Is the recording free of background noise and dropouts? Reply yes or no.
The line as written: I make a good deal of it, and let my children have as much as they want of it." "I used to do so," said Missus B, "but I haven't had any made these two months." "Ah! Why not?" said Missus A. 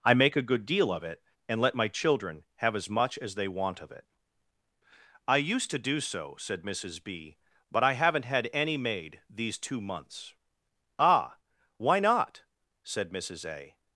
yes